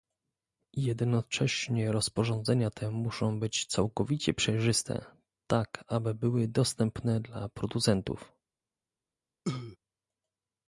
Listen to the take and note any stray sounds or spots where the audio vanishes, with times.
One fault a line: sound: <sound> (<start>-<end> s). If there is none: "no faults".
sound: cough (9.4-9.8 s)